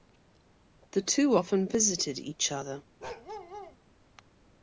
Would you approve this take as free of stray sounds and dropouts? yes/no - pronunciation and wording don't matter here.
no